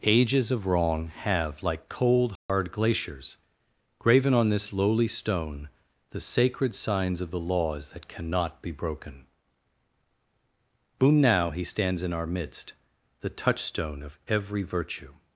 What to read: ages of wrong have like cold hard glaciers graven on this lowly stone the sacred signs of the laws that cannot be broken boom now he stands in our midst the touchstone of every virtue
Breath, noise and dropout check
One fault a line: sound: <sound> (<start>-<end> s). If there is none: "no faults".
sound: dropout (2.4-2.5 s)